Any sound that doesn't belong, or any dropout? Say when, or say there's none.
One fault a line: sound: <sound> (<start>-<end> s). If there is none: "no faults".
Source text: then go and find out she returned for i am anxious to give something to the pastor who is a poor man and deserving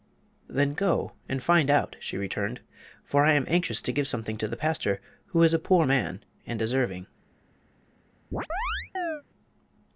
sound: chirp (8.3-9.2 s)